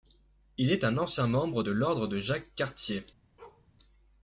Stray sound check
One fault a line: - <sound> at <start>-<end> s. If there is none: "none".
- bark at 3.4-3.7 s